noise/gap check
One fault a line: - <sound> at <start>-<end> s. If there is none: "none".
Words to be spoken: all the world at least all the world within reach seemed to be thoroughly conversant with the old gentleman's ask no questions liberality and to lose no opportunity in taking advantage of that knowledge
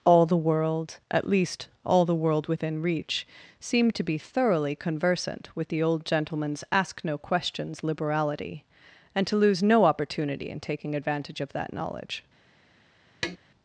- tap at 13.2-13.4 s